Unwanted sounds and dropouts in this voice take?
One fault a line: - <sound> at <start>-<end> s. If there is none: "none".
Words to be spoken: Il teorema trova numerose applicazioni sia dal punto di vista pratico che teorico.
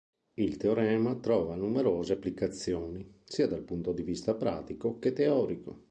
none